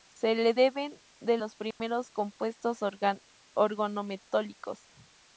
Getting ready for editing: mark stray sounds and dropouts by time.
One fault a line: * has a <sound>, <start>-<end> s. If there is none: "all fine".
* has a dropout, 1.7-1.8 s